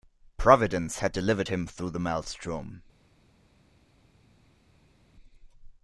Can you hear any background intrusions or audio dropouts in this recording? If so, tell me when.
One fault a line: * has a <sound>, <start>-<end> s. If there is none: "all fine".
all fine